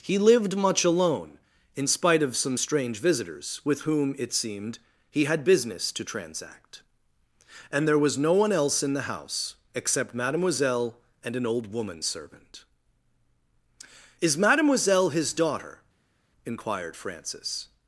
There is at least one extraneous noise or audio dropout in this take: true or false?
false